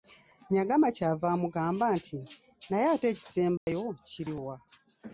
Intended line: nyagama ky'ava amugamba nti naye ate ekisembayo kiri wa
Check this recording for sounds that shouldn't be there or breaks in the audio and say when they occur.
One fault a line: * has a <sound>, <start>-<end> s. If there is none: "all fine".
* has a dropout, 3.6-3.7 s